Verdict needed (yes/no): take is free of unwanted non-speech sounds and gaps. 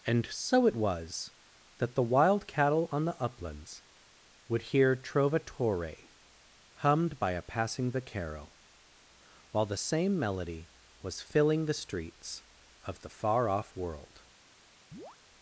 no